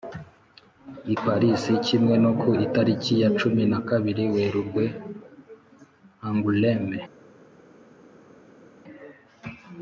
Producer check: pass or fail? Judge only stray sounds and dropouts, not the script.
pass